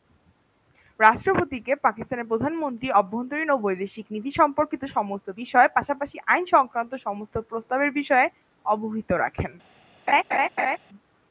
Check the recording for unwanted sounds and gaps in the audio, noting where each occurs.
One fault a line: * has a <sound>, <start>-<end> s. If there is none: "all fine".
* has a laugh, 10.1-10.8 s